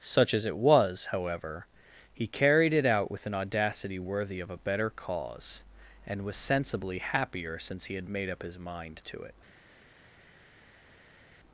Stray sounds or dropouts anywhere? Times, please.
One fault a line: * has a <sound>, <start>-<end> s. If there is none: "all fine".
all fine